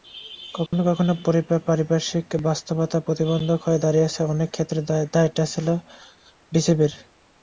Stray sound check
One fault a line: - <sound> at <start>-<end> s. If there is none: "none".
- dropout at 0.7-0.7 s